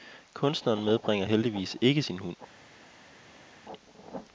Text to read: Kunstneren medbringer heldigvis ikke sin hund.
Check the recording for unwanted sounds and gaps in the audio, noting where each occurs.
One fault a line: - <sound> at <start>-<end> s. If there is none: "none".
none